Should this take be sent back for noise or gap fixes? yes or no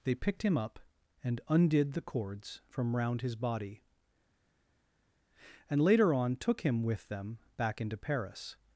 no